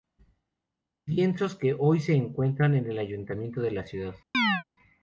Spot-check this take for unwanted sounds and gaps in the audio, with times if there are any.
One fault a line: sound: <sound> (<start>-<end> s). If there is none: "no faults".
sound: chirp (4.3-4.6 s)